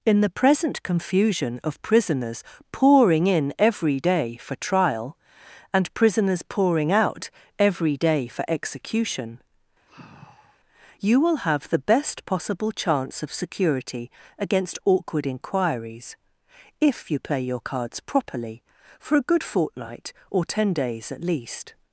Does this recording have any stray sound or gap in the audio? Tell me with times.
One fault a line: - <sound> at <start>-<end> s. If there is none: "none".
- sigh at 9.9-10.6 s